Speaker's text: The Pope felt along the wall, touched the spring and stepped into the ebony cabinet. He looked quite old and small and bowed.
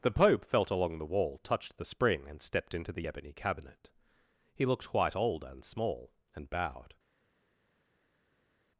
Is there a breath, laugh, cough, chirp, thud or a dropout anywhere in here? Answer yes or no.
no